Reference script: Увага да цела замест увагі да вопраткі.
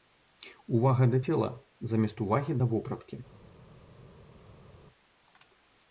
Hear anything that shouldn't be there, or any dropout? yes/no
no